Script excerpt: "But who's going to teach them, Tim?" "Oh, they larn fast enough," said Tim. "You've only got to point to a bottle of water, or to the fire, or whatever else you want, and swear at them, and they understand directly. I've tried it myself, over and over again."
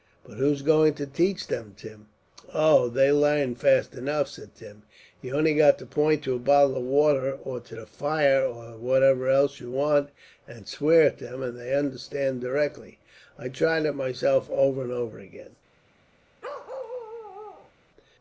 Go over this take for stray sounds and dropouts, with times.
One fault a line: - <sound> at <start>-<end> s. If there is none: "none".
- bark at 16.4-17.7 s